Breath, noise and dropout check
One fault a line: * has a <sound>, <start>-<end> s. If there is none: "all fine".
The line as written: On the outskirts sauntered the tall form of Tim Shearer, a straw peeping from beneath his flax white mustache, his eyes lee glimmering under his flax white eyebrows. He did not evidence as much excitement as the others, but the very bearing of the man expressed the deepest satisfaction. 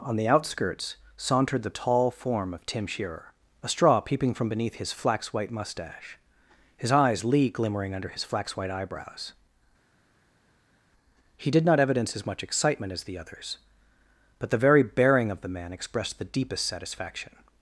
all fine